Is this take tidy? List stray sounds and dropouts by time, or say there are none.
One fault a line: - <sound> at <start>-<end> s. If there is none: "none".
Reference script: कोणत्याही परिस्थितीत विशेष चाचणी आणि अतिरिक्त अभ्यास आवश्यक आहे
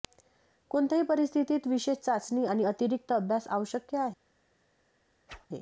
- whoosh at 5.3-5.5 s